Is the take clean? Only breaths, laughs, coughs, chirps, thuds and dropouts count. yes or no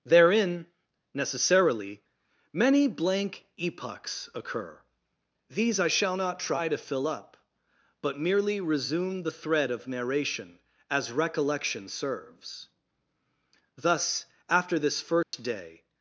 no